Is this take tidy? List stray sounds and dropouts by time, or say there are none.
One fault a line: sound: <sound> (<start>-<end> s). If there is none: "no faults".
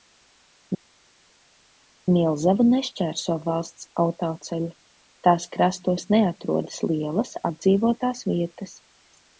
no faults